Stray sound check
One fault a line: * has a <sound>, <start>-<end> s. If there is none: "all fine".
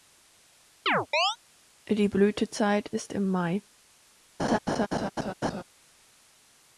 * has a chirp, 0.9-1.4 s
* has a laugh, 4.4-5.6 s